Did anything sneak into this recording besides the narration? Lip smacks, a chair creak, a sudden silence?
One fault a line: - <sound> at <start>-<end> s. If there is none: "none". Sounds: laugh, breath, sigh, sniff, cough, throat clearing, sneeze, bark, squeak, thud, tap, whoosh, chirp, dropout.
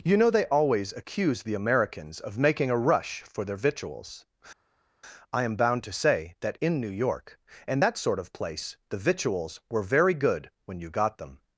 none